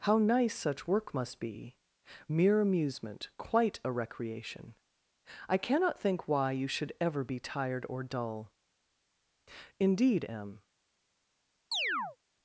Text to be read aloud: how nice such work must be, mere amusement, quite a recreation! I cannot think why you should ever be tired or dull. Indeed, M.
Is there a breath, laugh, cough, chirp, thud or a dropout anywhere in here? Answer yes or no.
yes